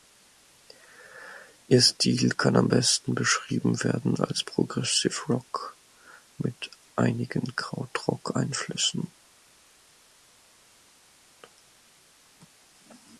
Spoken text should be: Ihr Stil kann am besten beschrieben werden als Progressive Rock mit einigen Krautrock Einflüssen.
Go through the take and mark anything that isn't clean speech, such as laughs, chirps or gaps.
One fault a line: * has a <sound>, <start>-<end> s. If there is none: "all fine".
all fine